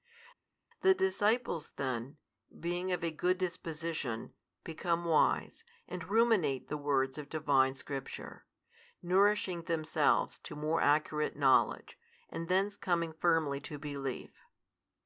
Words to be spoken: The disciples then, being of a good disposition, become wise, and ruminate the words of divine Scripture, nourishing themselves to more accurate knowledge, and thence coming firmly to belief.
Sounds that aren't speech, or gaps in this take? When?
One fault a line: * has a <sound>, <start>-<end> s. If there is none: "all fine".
all fine